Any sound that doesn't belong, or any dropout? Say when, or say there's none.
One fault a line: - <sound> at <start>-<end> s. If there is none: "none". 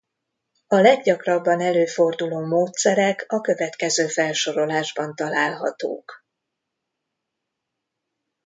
none